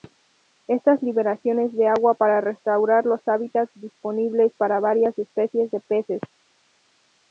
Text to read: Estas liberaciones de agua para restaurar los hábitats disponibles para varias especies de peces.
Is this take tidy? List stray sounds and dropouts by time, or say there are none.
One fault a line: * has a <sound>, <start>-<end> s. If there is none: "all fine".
all fine